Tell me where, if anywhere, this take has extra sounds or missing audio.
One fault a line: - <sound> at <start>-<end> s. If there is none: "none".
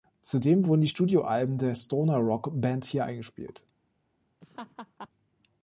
- laugh at 4.4-5.1 s